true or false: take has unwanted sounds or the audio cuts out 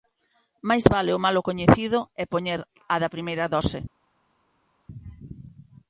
false